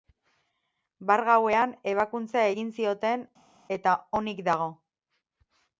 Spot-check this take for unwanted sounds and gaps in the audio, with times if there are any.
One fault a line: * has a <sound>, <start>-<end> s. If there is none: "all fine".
all fine